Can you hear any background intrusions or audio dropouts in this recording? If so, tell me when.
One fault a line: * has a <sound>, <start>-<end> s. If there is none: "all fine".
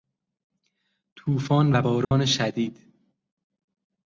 * has a dropout, 2.0-2.1 s